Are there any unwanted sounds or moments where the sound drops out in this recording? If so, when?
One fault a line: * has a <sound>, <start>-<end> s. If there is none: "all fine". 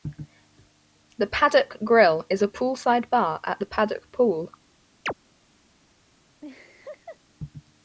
* has a chirp, 5.1-5.1 s
* has a laugh, 6.4-7.2 s